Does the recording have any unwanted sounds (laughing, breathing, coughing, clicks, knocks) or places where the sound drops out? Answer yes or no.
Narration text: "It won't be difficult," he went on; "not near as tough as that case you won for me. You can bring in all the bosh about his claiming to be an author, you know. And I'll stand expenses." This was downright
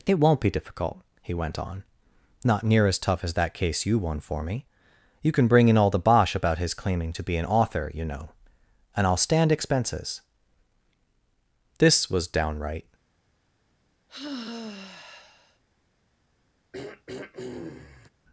yes